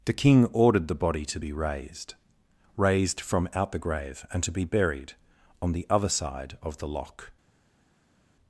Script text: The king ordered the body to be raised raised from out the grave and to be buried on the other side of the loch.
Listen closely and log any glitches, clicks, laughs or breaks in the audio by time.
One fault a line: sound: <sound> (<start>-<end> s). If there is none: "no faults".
no faults